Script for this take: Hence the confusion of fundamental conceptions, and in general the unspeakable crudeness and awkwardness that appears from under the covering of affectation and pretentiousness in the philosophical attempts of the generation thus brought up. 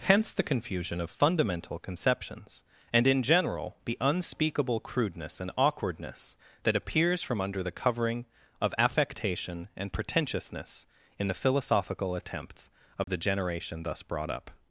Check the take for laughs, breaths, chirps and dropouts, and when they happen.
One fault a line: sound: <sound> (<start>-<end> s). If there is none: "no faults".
sound: dropout (13.0-13.1 s)